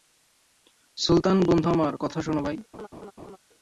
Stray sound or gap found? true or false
true